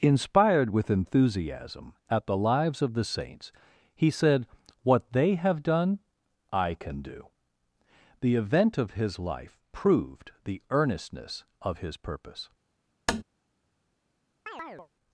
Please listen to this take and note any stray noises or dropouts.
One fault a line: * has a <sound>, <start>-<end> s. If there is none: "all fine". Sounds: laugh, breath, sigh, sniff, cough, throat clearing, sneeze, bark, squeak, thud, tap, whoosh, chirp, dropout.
* has a tap, 13.1-13.2 s
* has a chirp, 14.5-14.9 s